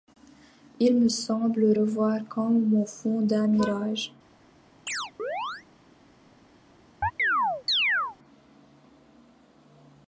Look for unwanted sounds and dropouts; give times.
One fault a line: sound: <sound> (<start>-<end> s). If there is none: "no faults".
sound: chirp (4.9-5.6 s)
sound: chirp (7.0-8.2 s)